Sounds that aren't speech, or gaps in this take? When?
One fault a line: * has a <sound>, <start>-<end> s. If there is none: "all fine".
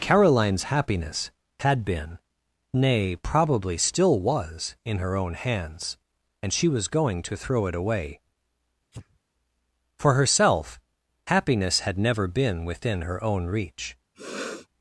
* has a sneeze, 8.9-9.2 s
* has a sniff, 14.1-14.7 s